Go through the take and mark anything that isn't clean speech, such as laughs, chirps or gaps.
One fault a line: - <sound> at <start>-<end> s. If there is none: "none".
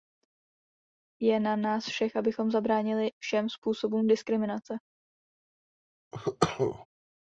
- cough at 6.1-6.9 s